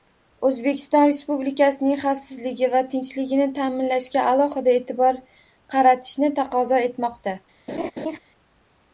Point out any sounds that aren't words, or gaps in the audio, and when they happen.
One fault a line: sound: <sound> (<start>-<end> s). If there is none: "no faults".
sound: laugh (7.7-8.2 s)